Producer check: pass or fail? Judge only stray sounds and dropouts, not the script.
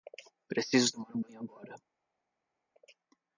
pass